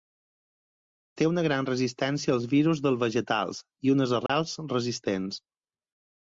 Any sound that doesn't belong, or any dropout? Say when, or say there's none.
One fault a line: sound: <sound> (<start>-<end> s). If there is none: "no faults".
sound: dropout (4.3-4.3 s)